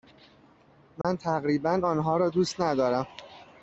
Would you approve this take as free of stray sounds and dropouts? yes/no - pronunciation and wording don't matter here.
no